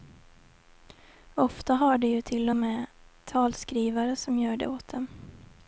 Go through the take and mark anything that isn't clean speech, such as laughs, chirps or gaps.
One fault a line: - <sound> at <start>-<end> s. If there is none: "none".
none